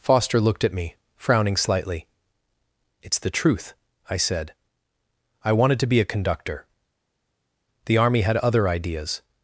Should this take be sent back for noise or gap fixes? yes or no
no